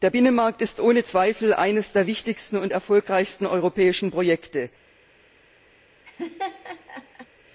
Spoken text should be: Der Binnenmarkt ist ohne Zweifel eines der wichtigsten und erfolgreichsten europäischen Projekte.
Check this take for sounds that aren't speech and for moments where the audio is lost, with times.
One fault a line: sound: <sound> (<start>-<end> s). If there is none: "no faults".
sound: laugh (6.1-7.3 s)